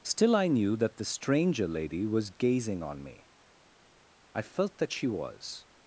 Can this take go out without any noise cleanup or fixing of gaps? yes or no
yes